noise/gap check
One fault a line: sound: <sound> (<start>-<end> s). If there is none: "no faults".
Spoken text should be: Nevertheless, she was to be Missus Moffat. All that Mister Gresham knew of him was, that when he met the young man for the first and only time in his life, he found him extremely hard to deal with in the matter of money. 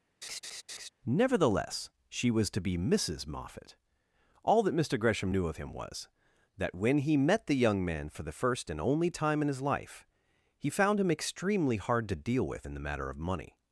sound: laugh (0.2-0.9 s)